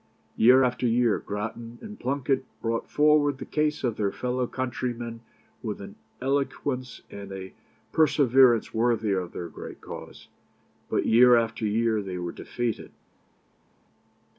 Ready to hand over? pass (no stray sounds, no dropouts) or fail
pass